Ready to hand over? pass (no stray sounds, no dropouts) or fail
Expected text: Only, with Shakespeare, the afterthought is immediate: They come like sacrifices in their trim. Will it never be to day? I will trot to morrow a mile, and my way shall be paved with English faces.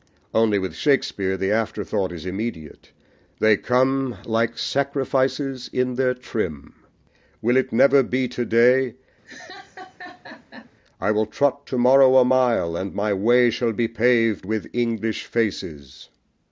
fail